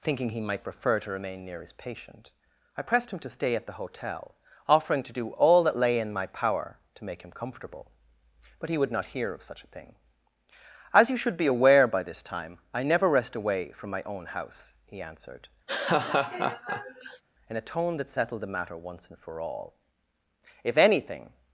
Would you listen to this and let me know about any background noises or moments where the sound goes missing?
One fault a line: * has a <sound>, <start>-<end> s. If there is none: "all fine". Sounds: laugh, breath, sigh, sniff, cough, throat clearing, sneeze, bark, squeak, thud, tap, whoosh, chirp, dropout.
* has a laugh, 15.7-17.2 s